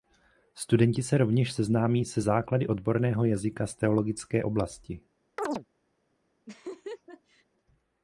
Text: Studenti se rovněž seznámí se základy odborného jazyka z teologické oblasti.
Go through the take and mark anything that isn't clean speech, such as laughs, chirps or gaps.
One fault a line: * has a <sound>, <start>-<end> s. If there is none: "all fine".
* has a chirp, 5.4-5.7 s
* has a laugh, 6.5-7.5 s